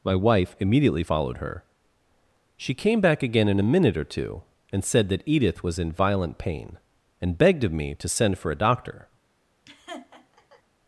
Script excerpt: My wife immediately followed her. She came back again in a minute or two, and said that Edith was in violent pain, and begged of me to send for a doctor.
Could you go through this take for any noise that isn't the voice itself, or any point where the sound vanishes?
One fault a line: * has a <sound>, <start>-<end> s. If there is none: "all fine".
* has a laugh, 9.7-10.6 s